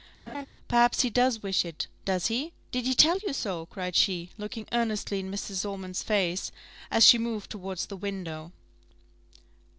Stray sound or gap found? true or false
true